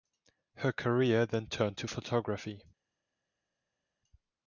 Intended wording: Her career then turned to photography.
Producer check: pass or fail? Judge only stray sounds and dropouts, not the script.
pass